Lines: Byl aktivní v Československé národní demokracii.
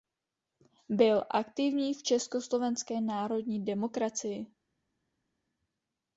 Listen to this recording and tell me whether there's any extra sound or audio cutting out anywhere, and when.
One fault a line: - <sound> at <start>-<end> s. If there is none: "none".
none